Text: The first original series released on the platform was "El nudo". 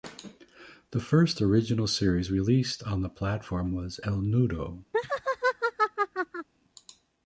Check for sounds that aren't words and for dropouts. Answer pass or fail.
fail